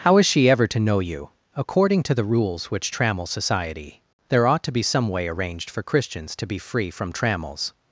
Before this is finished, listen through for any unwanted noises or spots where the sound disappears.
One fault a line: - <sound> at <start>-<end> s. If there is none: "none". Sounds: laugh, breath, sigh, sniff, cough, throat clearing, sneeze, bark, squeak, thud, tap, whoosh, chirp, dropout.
none